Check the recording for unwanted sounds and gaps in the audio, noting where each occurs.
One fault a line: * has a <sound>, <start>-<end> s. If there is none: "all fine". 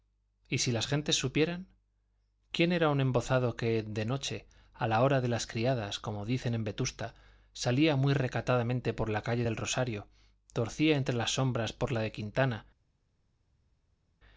all fine